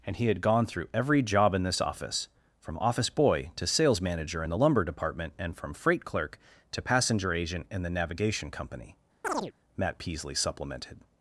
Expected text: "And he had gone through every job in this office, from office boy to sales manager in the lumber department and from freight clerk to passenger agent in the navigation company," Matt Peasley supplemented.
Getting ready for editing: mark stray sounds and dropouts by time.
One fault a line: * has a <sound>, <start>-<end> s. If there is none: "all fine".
* has a chirp, 9.2-9.5 s